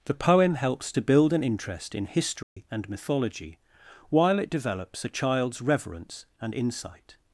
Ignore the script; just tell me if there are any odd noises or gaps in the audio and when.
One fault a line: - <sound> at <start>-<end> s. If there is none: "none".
- dropout at 2.4-2.6 s